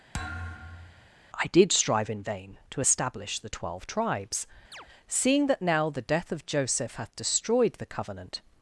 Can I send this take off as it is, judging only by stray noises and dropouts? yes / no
no